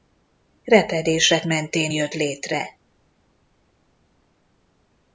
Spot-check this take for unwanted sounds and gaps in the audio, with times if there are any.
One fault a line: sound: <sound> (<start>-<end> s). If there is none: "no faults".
no faults